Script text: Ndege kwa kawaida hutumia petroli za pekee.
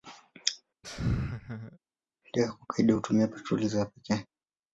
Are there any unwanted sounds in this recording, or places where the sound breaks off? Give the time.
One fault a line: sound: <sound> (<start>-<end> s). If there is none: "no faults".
sound: laugh (0.8-1.8 s)